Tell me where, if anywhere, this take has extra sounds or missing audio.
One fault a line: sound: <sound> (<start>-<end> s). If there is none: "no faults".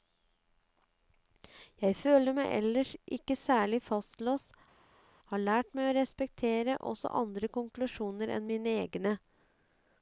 no faults